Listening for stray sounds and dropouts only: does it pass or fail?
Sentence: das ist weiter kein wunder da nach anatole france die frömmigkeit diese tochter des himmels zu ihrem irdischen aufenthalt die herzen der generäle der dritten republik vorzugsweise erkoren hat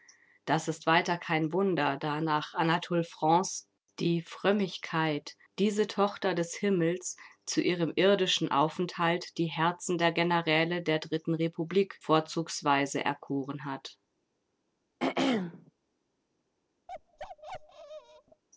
fail